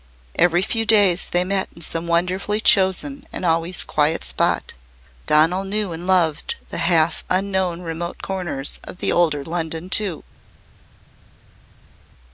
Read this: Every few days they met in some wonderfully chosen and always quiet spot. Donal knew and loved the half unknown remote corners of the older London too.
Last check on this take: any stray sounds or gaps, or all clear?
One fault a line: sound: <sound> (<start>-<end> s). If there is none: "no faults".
no faults